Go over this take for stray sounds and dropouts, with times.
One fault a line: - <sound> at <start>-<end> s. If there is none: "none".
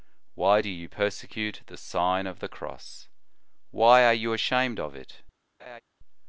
- laugh at 5.6-5.8 s